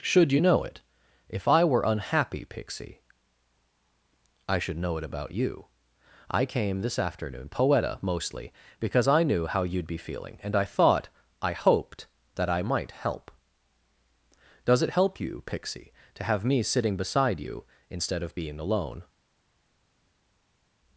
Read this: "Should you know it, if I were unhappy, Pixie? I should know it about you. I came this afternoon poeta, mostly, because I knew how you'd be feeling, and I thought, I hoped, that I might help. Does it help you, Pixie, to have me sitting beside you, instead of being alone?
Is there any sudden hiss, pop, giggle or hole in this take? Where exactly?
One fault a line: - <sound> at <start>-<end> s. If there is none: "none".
none